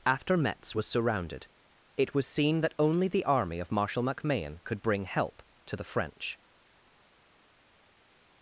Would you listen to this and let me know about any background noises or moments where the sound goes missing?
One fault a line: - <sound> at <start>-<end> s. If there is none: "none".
none